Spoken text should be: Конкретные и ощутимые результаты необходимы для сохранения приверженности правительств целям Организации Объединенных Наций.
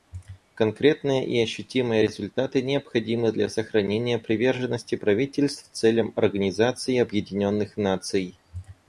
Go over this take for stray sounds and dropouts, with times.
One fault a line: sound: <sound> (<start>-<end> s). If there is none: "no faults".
no faults